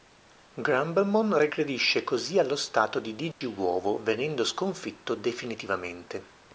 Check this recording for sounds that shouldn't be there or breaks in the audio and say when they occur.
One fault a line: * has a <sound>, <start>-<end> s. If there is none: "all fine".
* has a dropout, 3.3-3.4 s